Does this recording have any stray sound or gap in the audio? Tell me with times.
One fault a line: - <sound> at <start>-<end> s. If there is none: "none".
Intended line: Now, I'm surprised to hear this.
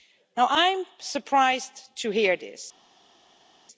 none